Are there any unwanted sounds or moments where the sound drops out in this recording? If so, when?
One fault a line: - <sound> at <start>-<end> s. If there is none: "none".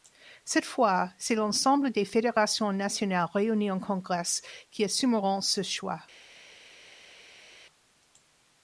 none